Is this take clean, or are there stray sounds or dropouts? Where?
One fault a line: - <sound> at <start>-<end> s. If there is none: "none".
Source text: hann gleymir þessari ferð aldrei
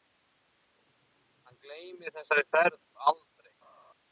none